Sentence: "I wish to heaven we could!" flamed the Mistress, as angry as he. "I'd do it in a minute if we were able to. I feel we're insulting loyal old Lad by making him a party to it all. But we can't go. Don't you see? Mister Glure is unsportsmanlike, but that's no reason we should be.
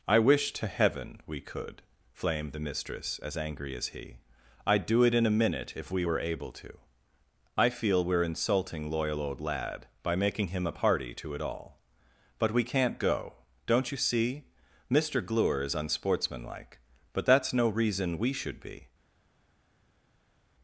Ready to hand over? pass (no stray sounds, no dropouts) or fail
pass